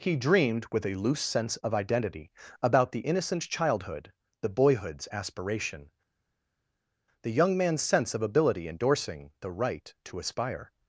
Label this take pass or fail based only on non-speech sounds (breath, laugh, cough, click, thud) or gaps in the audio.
pass